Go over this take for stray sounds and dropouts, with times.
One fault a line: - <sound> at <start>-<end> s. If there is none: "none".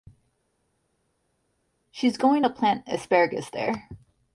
none